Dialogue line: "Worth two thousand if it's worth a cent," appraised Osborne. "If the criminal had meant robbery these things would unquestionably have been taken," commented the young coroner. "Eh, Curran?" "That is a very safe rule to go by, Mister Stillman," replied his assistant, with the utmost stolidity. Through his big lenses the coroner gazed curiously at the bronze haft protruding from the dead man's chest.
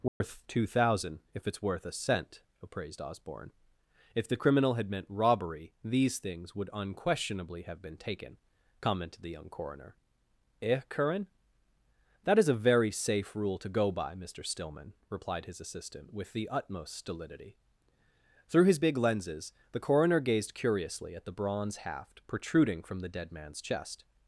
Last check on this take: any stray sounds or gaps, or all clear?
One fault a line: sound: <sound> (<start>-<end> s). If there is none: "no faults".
sound: dropout (0.1-0.2 s)